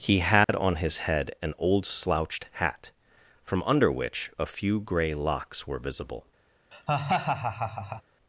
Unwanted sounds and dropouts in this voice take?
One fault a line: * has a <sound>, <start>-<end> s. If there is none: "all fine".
* has a dropout, 0.4-0.5 s
* has a laugh, 6.7-8.0 s